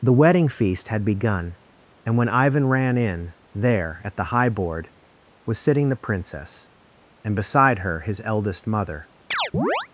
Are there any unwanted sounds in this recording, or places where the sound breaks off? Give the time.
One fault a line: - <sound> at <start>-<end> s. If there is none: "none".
- chirp at 9.3-9.9 s